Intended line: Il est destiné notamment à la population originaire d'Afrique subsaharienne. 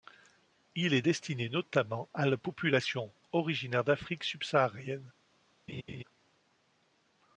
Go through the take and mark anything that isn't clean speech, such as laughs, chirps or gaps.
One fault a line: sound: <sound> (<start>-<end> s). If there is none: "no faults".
sound: laugh (5.7-6.0 s)